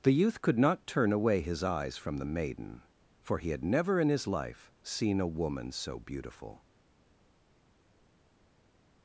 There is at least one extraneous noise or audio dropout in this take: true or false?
false